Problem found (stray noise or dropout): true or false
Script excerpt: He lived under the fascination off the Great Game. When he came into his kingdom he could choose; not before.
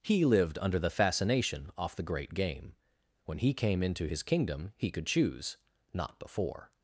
false